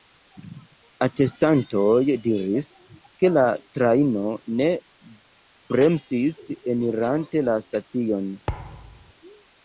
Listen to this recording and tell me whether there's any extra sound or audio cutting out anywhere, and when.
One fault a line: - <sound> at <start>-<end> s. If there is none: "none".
- thud at 8.5-9.1 s